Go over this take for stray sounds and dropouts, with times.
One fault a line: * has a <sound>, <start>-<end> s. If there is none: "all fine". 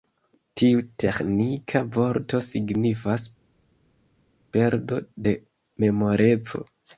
all fine